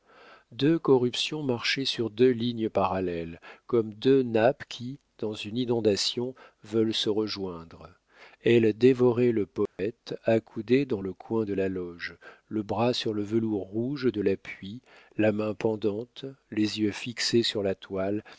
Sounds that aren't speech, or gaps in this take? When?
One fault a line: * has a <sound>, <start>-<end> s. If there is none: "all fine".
* has a dropout, 9.7-9.8 s